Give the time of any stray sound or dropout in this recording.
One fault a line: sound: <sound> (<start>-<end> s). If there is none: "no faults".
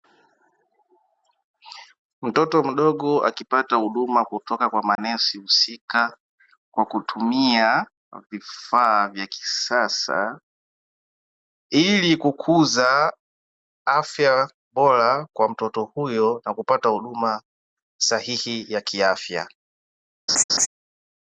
sound: dropout (5.0-5.0 s)
sound: laugh (20.3-20.7 s)